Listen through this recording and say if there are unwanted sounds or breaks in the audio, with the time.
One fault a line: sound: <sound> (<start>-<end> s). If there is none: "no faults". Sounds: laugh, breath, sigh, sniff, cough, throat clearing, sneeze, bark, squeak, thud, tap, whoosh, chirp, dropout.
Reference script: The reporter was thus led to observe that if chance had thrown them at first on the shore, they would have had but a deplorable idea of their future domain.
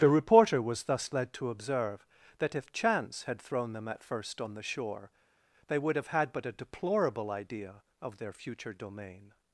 no faults